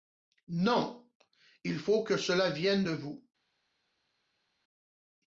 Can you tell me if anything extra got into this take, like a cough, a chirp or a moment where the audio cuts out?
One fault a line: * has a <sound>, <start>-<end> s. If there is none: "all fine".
all fine